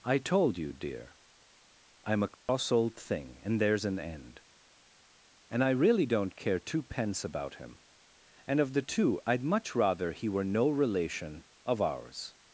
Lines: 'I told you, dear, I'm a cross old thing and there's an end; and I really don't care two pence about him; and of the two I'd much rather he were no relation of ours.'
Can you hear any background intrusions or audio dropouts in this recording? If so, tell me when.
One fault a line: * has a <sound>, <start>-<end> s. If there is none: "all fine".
* has a dropout, 2.3-2.5 s